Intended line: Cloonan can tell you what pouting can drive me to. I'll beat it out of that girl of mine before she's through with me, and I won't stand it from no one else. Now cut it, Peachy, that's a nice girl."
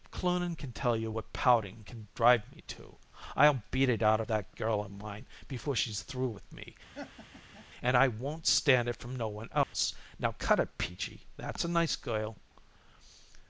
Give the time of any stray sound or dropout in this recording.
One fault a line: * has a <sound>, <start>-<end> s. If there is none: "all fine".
* has a laugh, 6.9-7.7 s
* has a dropout, 9.6-9.7 s